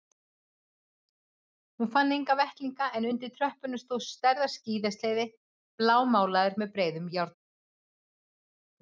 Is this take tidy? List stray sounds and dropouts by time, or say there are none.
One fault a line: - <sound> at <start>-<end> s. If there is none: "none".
none